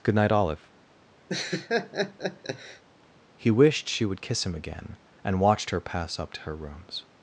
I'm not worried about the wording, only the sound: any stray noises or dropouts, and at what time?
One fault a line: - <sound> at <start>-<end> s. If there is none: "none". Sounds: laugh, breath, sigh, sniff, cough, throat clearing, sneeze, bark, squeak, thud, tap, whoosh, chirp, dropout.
- laugh at 1.3-2.8 s